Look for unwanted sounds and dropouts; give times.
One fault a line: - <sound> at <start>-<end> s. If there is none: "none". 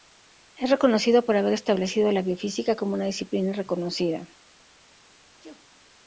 - sneeze at 5.4-5.7 s